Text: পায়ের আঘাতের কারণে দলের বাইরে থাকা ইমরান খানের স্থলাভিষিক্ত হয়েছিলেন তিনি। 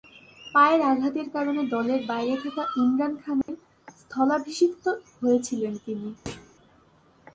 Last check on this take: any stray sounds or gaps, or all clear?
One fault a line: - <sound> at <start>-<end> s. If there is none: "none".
- dropout at 3.4-3.5 s
- thud at 6.3-6.5 s